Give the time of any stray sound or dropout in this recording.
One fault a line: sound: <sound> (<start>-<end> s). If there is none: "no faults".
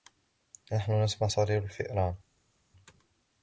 no faults